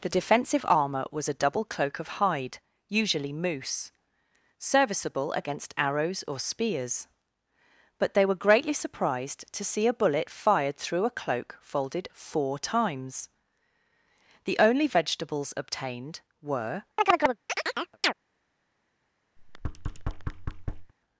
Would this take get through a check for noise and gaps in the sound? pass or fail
fail